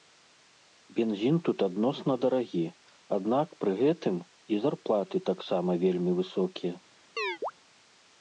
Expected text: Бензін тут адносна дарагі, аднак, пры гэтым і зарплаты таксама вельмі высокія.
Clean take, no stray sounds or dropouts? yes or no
no